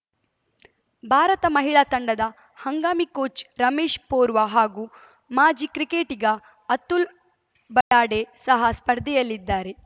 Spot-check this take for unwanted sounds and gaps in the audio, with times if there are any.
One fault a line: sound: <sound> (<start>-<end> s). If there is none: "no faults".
sound: dropout (7.8-7.9 s)